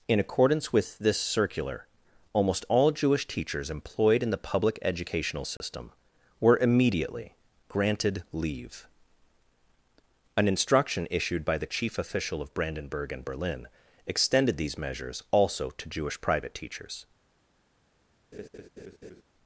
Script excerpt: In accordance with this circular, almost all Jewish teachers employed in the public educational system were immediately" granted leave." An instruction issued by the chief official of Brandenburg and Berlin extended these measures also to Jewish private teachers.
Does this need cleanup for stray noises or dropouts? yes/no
yes